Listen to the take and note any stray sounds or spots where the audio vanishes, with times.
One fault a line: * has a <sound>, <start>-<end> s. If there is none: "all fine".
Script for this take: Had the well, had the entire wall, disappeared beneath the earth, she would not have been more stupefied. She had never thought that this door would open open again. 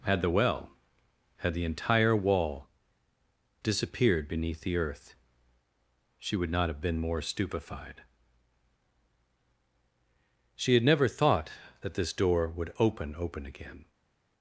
all fine